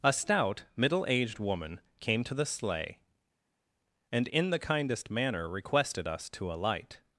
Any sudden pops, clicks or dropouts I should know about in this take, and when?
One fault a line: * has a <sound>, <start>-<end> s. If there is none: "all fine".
all fine